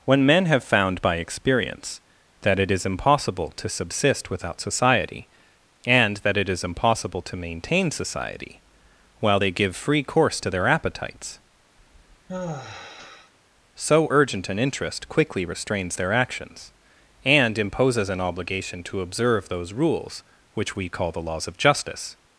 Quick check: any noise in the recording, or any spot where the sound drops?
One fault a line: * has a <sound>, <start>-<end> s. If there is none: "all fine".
* has a sigh, 11.8-13.3 s